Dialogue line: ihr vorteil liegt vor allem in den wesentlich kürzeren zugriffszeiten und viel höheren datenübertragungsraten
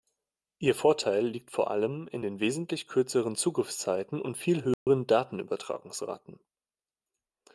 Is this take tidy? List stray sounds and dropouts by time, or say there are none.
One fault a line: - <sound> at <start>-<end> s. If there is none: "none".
- dropout at 4.7-4.9 s